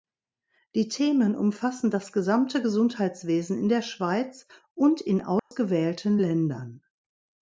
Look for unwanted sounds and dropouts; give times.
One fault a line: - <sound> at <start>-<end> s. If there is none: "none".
- dropout at 5.4-5.5 s